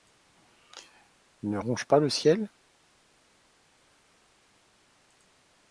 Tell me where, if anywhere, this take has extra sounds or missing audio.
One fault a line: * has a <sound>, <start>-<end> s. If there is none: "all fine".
all fine